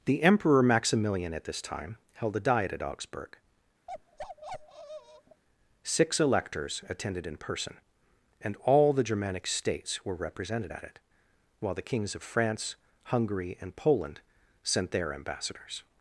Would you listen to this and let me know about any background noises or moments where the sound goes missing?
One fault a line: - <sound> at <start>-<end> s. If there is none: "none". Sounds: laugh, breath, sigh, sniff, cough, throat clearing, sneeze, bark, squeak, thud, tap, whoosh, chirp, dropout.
- bark at 3.9-5.4 s